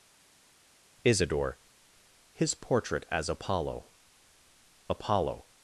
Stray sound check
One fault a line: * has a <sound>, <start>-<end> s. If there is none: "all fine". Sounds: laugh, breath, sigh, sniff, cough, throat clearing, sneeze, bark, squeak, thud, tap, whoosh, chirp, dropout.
all fine